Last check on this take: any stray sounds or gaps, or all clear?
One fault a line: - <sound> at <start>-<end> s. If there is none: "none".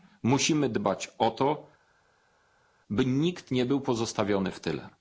none